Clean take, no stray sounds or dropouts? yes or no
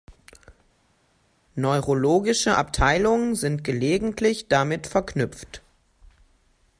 yes